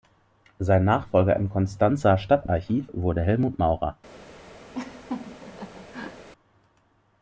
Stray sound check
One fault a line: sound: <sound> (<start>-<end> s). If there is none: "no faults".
sound: laugh (4.7-6.3 s)